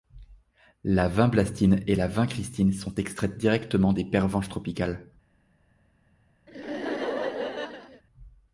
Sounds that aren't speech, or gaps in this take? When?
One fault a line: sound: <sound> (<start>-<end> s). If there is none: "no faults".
sound: laugh (6.5-8.0 s)